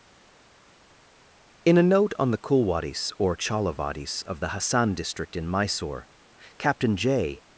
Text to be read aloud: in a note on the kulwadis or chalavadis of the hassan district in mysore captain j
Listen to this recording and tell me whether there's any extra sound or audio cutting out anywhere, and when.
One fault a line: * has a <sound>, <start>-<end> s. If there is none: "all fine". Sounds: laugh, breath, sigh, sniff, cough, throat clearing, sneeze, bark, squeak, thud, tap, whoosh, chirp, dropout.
all fine